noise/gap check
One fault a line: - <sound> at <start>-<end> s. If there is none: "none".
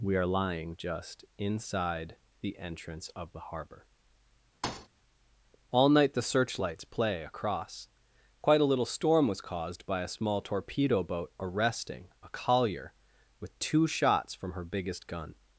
- thud at 4.6-4.9 s